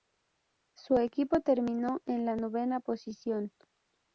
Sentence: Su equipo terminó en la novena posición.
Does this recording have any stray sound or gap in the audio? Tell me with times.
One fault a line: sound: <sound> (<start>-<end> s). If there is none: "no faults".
no faults